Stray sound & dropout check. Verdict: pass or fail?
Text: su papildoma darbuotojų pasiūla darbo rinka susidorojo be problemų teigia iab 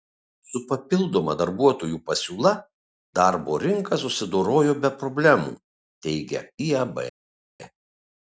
pass